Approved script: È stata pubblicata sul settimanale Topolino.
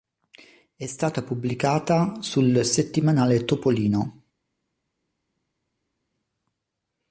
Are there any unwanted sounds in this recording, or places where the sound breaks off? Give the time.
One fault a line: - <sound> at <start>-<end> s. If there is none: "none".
none